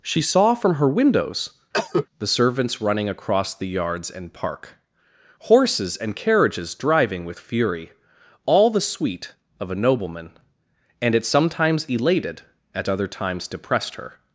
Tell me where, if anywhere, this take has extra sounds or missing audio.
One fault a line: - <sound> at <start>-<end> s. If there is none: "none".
- cough at 1.7-2.1 s